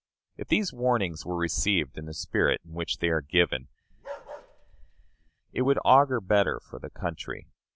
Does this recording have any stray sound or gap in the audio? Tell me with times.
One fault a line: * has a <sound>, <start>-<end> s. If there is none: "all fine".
* has a bark, 3.9-5.3 s